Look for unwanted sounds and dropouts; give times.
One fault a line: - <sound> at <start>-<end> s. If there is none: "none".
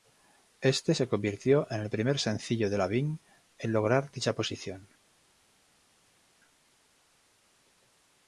none